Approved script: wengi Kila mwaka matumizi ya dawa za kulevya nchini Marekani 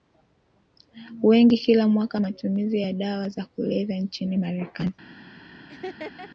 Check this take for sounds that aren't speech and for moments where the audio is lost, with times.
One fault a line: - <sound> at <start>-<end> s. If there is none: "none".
- laugh at 5.7-6.3 s